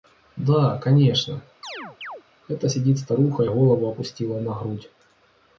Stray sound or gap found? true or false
true